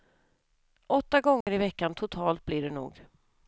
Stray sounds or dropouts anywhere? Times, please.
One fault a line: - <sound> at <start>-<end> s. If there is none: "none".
- dropout at 1.4-1.5 s